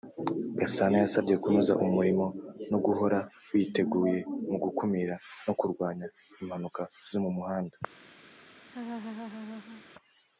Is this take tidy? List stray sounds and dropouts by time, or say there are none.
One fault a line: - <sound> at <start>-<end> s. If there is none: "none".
- laugh at 8.6-9.8 s